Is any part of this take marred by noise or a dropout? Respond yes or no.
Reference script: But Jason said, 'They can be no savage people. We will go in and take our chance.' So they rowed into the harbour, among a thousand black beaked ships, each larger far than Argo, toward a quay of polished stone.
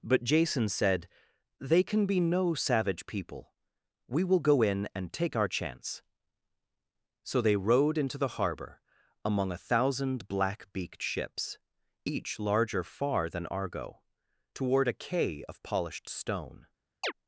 yes